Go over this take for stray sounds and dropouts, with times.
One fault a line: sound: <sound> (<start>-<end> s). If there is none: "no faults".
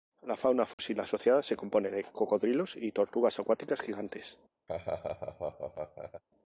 sound: dropout (0.7-0.8 s)
sound: laugh (4.7-6.2 s)